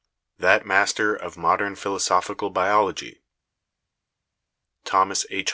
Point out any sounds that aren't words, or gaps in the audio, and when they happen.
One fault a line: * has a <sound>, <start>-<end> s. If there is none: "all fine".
all fine